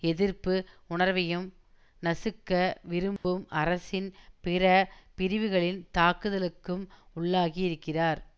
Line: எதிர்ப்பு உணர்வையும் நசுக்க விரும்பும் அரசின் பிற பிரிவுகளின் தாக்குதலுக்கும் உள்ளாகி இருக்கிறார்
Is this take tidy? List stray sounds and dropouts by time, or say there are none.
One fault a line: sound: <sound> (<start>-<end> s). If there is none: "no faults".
sound: dropout (3.2-3.2 s)